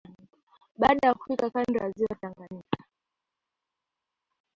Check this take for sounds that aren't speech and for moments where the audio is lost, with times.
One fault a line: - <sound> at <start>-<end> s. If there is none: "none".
none